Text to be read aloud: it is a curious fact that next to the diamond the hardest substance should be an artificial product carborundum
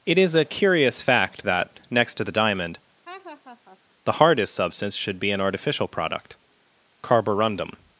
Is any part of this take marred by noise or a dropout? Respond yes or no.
yes